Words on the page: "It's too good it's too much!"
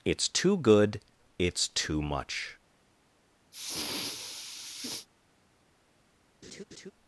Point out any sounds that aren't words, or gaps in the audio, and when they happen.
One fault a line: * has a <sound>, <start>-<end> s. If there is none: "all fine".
* has a sniff, 3.5-5.1 s
* has a laugh, 6.4-6.9 s